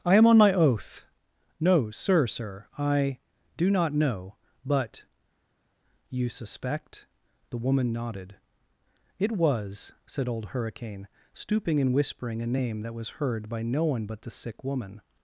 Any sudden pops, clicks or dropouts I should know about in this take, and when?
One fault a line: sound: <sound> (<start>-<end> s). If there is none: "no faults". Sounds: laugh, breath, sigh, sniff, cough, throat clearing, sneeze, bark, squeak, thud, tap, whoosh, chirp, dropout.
no faults